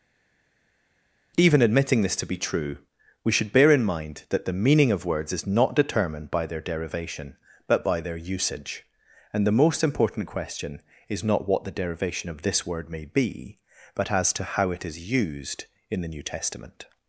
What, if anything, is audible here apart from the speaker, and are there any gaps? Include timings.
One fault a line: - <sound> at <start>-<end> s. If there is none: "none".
none